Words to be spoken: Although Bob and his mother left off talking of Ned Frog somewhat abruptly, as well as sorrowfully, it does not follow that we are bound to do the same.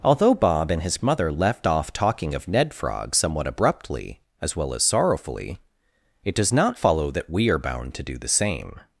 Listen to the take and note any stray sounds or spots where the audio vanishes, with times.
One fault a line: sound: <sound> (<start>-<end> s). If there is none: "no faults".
no faults